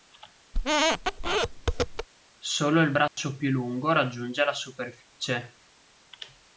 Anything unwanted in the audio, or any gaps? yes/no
yes